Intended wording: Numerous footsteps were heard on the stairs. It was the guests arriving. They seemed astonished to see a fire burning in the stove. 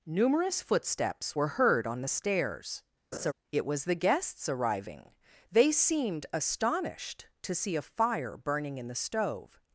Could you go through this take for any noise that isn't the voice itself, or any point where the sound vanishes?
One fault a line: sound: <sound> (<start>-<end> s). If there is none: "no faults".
sound: laugh (3.1-3.3 s)